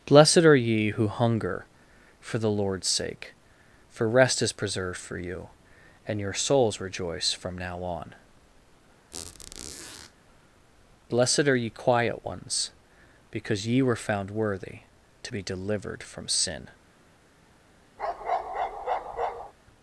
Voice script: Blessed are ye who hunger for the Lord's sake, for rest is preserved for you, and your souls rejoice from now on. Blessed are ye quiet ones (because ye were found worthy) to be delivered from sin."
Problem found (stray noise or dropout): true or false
true